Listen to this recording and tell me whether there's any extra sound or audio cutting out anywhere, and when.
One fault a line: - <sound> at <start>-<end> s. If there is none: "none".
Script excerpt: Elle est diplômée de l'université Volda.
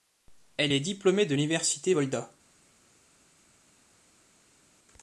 none